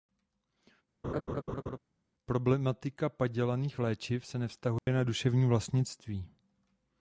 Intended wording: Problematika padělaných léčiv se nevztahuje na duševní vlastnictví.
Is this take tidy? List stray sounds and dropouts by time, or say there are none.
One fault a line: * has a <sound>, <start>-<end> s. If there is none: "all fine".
* has a laugh, 1.0-1.8 s
* has a dropout, 4.8-4.9 s